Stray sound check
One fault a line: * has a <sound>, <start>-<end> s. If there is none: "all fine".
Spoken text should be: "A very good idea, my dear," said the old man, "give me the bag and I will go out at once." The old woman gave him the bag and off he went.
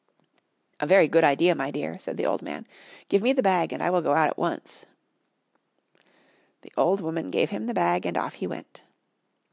all fine